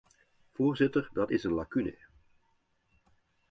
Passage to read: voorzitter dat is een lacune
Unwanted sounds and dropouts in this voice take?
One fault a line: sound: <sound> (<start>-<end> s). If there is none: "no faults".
no faults